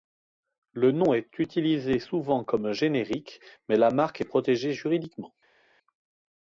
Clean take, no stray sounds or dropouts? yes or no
yes